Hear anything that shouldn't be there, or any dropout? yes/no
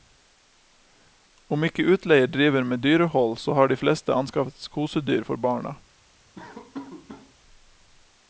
yes